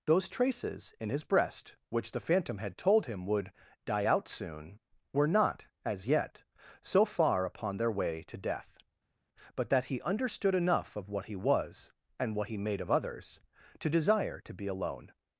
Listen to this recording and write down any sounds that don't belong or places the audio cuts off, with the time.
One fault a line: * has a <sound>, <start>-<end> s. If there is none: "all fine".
all fine